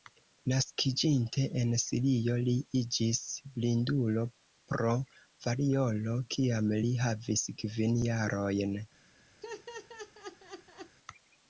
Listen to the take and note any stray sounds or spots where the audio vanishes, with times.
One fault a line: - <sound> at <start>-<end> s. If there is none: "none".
- laugh at 9.4-11.0 s